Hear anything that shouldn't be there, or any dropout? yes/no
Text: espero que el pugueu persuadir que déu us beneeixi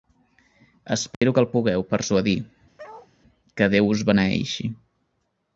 yes